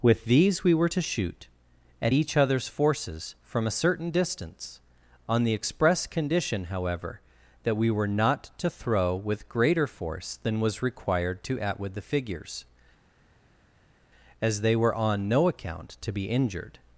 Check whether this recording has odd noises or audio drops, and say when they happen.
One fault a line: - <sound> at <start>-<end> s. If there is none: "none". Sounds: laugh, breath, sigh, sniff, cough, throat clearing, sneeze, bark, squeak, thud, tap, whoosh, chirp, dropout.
none